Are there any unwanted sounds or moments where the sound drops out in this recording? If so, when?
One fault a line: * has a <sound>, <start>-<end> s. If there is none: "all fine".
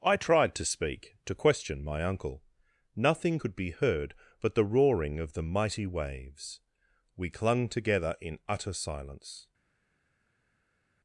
all fine